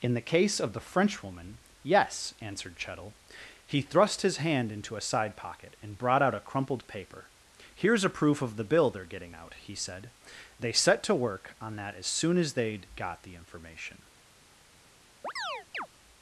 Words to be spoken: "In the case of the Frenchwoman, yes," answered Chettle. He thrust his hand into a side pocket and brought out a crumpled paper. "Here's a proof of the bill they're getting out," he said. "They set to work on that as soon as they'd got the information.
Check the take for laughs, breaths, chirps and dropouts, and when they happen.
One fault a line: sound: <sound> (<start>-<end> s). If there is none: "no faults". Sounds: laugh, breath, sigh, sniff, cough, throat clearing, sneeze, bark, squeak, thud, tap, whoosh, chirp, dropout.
sound: chirp (15.2-15.9 s)